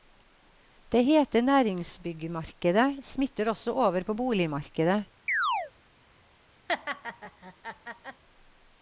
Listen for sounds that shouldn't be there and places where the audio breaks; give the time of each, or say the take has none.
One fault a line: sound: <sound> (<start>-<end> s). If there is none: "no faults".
sound: chirp (5.3-5.7 s)
sound: laugh (6.7-8.2 s)